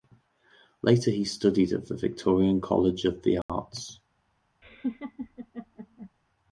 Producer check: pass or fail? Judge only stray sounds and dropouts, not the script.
fail